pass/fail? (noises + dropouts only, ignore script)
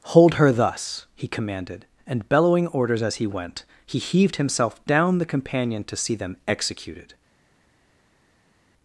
pass